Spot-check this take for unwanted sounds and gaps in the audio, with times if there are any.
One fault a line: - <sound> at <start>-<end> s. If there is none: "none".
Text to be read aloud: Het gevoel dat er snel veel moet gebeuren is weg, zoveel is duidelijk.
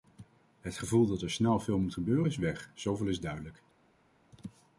none